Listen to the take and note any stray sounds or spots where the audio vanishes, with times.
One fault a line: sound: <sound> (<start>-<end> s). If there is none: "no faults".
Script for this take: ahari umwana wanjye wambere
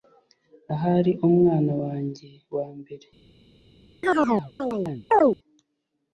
sound: chirp (4.0-5.4 s)